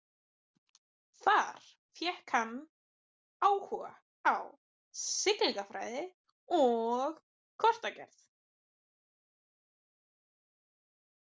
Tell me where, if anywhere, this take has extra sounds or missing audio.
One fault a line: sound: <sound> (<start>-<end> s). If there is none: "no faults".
no faults